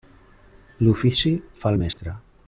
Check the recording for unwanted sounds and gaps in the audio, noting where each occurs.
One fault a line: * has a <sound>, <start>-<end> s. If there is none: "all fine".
* has a dropout, 1.9-2.0 s